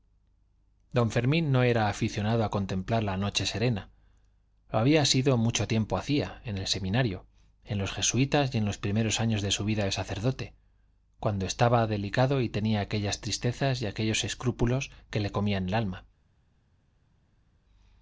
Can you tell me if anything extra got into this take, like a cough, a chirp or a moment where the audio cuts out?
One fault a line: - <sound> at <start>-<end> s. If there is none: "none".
none